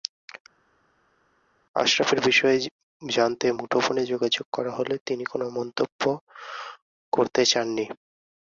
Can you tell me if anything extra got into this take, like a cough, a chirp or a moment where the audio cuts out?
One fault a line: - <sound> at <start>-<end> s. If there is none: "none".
none